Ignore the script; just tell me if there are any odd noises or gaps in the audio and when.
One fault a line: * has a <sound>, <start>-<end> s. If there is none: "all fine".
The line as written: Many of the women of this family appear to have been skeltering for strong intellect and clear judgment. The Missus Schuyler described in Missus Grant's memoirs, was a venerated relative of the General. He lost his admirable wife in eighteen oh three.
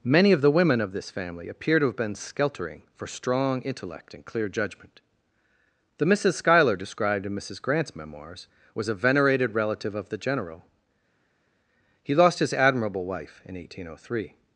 all fine